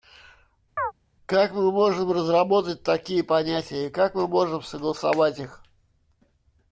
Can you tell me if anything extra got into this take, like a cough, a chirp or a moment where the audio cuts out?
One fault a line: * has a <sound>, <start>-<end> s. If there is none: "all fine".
* has a chirp, 0.8-0.9 s